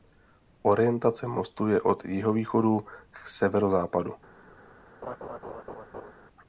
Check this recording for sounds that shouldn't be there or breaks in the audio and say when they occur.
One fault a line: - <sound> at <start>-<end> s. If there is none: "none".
- laugh at 5.0-6.1 s